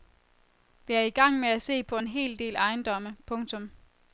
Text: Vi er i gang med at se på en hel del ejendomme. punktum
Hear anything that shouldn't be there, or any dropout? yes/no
no